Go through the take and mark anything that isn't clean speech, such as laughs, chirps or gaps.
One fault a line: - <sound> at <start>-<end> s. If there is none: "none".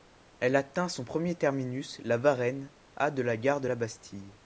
none